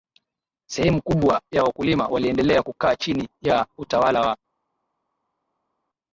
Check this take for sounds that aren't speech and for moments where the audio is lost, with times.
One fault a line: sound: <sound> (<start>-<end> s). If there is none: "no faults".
no faults